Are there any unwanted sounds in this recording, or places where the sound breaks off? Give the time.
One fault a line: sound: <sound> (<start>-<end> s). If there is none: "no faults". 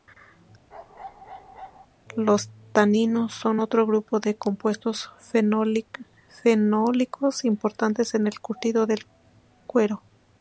sound: bark (0.7-1.9 s)